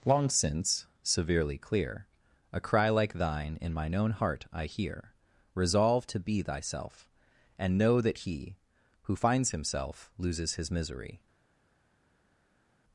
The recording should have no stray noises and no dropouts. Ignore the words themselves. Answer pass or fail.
pass